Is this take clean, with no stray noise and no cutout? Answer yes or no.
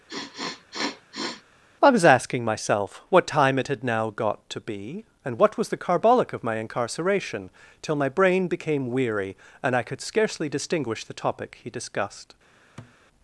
no